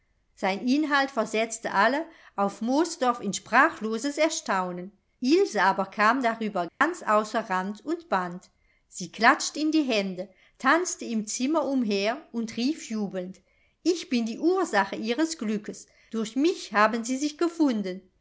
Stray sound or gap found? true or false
true